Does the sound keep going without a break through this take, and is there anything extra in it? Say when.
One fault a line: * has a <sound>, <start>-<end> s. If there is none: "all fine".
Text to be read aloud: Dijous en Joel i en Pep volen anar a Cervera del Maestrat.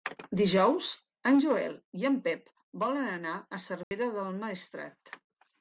* has a dropout, 3.8-3.9 s